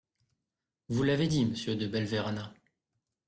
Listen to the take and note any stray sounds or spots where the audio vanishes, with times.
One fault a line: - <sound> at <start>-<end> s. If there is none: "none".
none